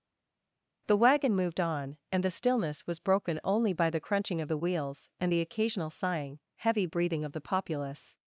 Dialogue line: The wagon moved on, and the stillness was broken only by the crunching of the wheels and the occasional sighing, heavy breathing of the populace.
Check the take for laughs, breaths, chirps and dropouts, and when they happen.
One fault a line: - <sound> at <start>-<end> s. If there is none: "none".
none